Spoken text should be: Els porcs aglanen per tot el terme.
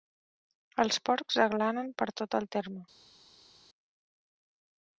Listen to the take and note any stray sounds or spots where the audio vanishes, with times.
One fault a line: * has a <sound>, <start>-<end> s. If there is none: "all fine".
all fine